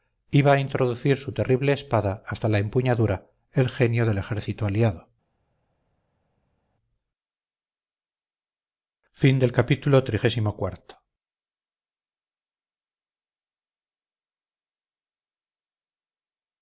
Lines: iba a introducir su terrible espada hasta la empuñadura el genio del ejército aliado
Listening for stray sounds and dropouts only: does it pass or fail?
pass